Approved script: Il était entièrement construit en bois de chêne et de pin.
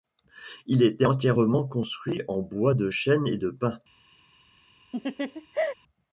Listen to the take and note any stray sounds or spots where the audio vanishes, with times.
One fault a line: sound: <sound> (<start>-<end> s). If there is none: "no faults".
sound: laugh (4.9-5.7 s)